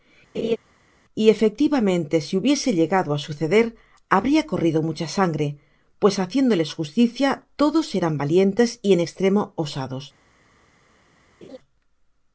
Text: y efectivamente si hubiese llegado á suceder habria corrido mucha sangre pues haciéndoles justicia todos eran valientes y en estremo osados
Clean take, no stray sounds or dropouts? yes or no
no